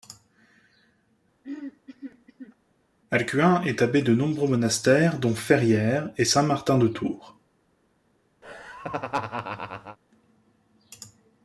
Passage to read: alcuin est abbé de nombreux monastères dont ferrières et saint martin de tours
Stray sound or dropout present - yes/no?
yes